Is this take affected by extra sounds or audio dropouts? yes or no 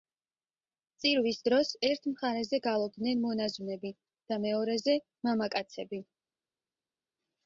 no